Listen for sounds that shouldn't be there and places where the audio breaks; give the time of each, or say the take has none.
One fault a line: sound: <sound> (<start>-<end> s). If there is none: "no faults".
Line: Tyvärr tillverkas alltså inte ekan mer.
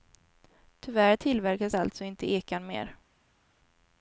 no faults